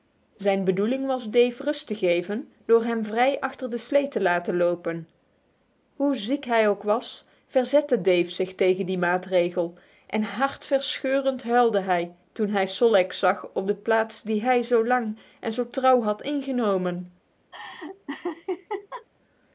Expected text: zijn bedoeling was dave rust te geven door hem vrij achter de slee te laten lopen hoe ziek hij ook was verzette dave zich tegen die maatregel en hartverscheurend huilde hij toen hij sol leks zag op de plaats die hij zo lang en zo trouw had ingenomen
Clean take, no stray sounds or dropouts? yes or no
no